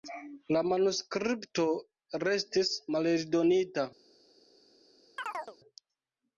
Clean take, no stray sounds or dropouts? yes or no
no